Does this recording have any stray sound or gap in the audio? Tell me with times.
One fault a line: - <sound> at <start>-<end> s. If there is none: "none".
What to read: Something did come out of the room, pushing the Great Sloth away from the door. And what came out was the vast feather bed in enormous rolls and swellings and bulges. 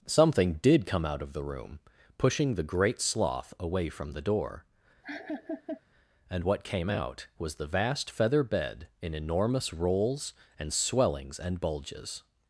- laugh at 5.0-5.8 s